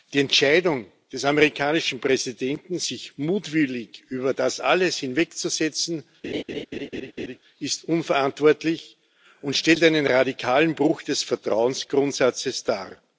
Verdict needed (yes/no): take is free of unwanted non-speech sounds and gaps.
no